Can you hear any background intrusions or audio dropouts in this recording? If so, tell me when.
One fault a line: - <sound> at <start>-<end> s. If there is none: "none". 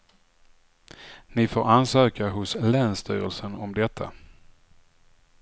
none